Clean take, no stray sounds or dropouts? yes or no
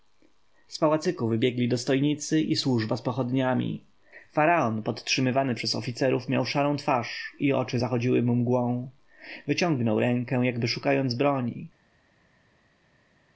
yes